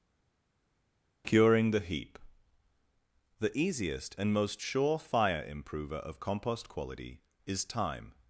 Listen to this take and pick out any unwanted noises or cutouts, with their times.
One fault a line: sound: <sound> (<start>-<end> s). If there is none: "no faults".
no faults